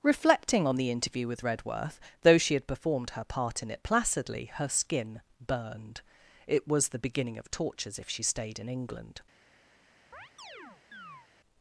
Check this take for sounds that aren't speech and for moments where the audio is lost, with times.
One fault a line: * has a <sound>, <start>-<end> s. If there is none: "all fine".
* has a chirp, 10.1-11.3 s